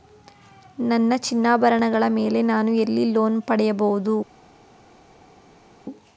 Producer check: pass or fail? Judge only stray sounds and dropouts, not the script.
pass